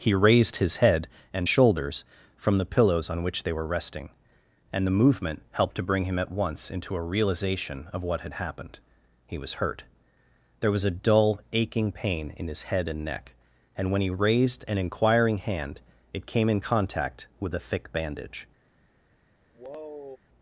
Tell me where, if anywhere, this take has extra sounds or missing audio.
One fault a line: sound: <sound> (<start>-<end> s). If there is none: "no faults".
sound: sigh (19.5-20.2 s)